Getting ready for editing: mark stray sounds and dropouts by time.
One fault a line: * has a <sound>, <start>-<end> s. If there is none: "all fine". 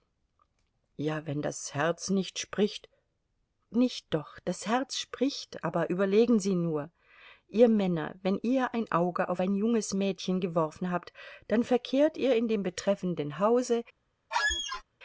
* has a squeak, 14.3-14.8 s